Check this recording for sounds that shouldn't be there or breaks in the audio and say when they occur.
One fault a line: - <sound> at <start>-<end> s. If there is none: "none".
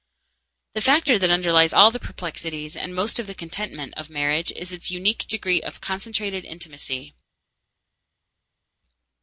none